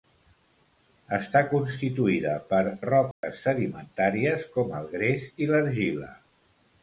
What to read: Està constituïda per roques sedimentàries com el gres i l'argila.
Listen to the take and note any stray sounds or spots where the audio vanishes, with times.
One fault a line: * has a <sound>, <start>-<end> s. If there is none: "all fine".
* has a dropout, 3.1-3.2 s